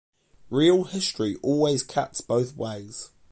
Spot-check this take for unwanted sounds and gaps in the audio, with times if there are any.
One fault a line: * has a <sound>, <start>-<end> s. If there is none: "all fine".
all fine